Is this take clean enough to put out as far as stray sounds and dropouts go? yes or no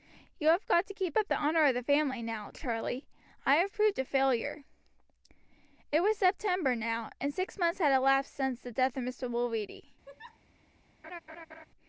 no